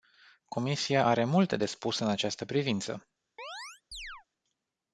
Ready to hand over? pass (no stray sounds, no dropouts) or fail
fail